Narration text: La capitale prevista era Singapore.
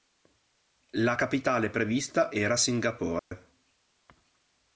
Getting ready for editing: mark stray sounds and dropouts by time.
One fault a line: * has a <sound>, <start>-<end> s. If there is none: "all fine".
* has a dropout, 3.2-3.3 s